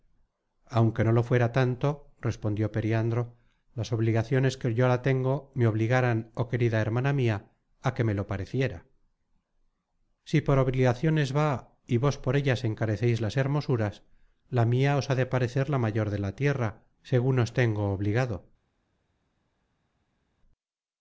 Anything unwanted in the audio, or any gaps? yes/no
no